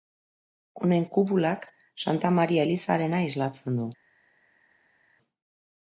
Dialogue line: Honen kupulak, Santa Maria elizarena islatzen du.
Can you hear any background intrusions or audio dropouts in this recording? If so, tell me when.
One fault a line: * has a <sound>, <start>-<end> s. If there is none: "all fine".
all fine